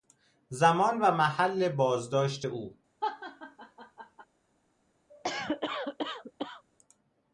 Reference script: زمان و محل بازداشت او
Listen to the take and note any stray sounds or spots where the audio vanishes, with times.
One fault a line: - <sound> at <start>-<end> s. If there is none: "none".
- laugh at 3.0-4.3 s
- cough at 5.1-6.6 s